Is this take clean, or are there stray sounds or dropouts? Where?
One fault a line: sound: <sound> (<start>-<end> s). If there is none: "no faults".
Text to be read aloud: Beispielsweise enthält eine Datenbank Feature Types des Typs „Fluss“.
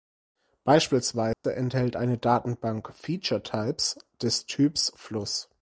sound: dropout (1.3-1.4 s)